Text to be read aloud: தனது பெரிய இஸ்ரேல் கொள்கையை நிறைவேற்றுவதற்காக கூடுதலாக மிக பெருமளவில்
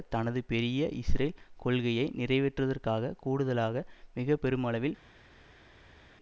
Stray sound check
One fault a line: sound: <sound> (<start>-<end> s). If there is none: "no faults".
no faults